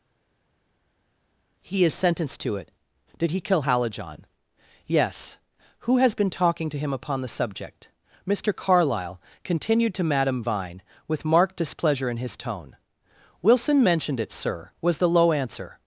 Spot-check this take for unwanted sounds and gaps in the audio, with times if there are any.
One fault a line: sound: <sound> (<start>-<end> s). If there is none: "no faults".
no faults